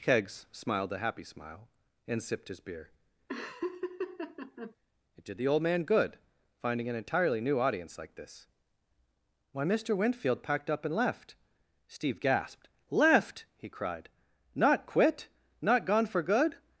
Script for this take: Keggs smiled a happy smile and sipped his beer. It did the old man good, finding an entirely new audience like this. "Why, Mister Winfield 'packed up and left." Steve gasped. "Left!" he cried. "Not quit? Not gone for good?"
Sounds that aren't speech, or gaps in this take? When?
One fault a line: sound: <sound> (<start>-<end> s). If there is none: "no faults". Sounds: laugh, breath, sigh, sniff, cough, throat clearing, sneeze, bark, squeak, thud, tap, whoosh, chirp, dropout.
sound: laugh (3.3-4.7 s)